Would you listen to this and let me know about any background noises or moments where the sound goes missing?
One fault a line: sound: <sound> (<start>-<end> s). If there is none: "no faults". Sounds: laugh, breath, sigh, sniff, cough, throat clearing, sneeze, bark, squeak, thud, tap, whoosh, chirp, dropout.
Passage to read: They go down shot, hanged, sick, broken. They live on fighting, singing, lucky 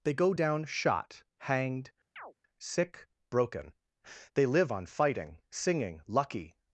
sound: chirp (2.2-2.3 s)